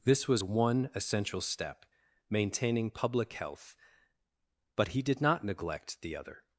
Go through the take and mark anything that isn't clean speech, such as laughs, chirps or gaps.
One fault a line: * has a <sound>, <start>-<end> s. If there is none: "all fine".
all fine